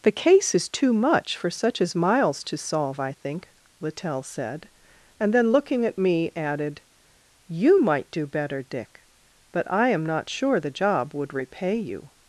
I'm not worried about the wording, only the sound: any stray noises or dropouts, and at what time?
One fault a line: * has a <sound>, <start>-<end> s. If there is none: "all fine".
all fine